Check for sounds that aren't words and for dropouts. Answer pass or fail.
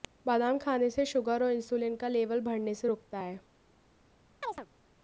fail